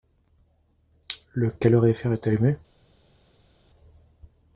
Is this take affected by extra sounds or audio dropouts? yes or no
no